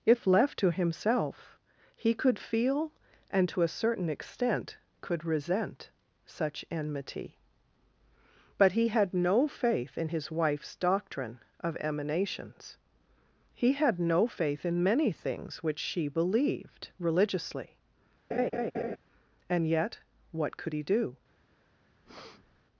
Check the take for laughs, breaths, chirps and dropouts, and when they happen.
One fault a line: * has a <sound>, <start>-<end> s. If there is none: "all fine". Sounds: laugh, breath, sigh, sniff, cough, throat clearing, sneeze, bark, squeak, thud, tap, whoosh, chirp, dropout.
* has a laugh, 18.3-19.0 s
* has a breath, 22.0-22.6 s